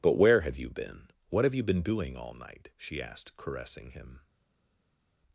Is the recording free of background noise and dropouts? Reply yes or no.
yes